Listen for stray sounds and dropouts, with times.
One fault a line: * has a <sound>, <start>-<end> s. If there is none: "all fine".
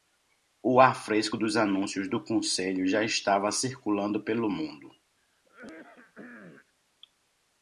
* has a throat clearing, 5.2-6.7 s